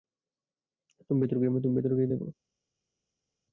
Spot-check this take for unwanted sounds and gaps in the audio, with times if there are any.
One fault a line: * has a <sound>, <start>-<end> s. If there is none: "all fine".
all fine